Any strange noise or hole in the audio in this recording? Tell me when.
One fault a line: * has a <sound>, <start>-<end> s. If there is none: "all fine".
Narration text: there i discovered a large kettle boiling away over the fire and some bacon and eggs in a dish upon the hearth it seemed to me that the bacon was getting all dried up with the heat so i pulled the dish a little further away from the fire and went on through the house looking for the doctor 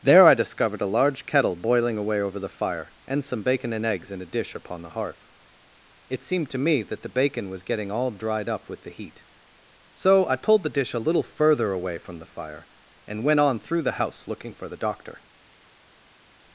all fine